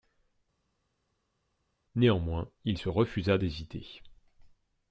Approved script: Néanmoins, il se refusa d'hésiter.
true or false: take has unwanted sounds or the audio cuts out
false